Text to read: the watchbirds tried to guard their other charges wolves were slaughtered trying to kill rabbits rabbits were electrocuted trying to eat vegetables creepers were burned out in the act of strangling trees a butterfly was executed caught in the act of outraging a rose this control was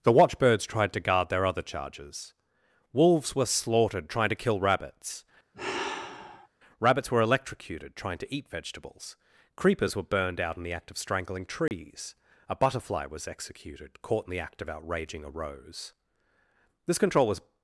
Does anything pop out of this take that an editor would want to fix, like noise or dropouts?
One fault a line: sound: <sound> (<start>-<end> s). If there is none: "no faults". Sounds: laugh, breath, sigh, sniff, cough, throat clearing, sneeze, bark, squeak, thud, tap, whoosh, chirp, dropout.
sound: sigh (5.5-6.5 s)
sound: dropout (11.7-11.7 s)